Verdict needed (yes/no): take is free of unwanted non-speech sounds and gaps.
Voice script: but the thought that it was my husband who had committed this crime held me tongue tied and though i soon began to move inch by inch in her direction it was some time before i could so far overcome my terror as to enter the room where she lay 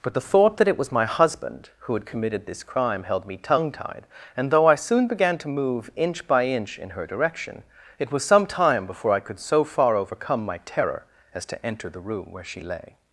yes